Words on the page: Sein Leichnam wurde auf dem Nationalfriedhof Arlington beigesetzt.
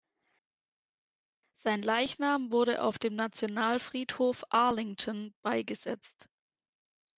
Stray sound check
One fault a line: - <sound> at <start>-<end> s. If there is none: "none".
none